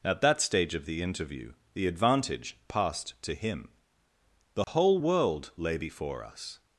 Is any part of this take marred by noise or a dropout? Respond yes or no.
yes